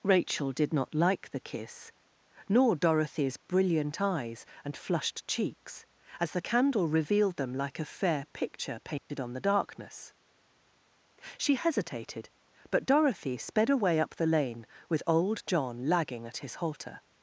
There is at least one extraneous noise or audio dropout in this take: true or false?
true